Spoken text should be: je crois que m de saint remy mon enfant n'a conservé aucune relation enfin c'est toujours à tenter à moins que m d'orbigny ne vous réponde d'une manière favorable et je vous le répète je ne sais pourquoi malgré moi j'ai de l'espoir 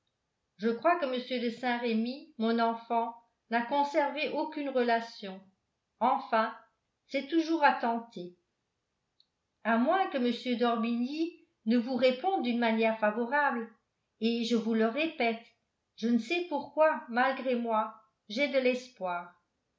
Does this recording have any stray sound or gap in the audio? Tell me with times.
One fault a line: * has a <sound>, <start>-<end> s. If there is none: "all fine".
all fine